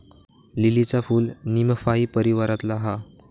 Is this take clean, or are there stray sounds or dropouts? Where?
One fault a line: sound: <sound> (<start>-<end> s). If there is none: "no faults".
no faults